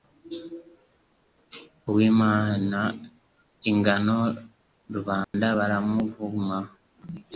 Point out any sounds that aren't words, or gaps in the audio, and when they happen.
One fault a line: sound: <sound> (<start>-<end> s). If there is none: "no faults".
sound: dropout (5.2-5.3 s)